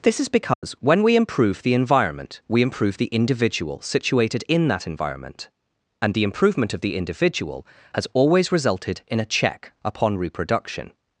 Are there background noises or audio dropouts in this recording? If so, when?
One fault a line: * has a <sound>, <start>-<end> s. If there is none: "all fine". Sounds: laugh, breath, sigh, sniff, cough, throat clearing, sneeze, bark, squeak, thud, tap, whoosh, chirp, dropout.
* has a dropout, 0.5-0.6 s